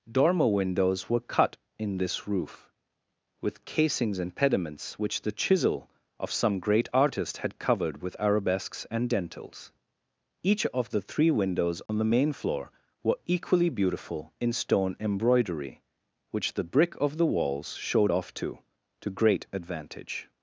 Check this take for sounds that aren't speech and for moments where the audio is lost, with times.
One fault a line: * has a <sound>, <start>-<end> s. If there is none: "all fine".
* has a dropout, 11.9-11.9 s